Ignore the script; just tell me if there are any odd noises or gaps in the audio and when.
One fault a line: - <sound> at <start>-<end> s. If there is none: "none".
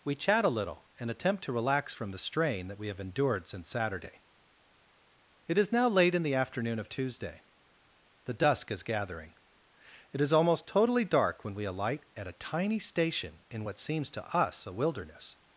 none